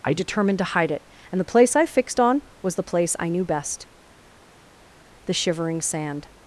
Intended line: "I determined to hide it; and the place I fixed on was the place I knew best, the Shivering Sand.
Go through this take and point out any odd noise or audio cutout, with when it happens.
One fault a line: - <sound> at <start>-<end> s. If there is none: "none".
none